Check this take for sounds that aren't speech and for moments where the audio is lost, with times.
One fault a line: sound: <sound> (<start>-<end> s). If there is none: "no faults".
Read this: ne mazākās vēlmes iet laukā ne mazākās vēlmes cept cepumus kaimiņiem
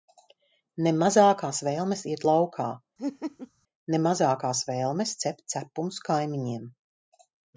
sound: laugh (3.0-3.5 s)